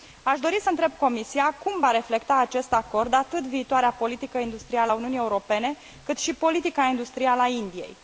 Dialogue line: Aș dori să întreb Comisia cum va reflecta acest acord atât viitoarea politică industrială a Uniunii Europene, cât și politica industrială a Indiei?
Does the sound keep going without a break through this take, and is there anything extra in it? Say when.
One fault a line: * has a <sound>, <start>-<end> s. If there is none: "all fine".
all fine